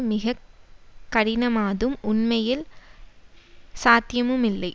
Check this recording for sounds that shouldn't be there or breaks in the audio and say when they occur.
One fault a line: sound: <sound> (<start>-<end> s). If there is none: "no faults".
no faults